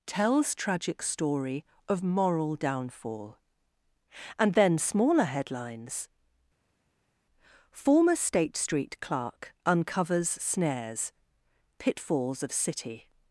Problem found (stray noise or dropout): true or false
false